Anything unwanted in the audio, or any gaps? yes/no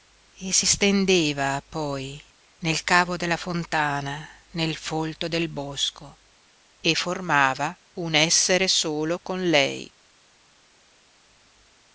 no